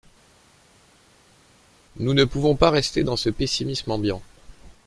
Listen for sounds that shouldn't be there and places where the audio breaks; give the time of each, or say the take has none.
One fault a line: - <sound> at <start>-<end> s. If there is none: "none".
none